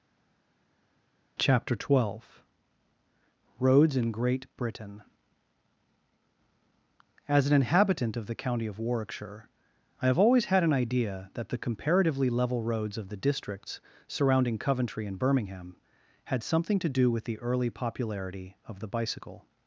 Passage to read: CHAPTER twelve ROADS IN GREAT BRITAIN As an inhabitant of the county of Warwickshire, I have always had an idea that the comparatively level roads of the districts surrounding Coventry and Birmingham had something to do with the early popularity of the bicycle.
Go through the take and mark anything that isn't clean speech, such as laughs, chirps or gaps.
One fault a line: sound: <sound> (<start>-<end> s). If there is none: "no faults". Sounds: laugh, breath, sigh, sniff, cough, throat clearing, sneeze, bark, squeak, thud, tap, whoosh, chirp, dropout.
no faults